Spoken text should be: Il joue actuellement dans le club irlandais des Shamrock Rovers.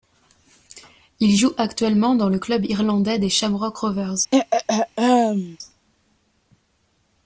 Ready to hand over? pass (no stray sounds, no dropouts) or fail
fail